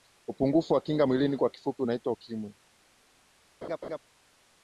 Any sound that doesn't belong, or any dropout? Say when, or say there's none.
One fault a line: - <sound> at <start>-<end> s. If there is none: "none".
- laugh at 3.6-4.0 s